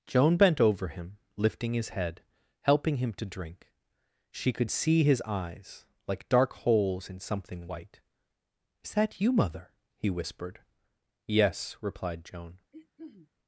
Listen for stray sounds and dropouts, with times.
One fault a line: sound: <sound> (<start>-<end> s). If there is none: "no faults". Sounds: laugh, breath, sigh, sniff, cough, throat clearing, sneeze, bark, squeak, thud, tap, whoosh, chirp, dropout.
sound: throat clearing (12.7-13.3 s)